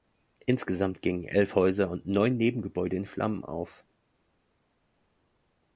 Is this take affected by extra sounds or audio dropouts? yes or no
no